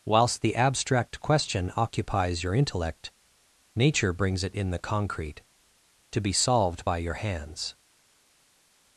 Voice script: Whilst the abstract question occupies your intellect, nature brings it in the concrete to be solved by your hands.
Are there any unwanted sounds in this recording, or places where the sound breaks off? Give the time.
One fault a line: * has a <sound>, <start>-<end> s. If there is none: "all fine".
all fine